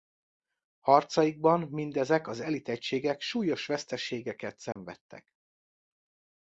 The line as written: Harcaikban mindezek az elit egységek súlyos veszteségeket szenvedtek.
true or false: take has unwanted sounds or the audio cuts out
true